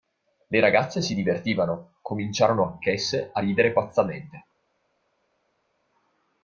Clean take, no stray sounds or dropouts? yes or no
yes